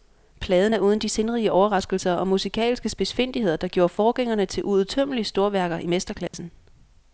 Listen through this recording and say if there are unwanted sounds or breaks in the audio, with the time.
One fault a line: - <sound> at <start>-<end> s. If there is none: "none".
- dropout at 6.3-6.3 s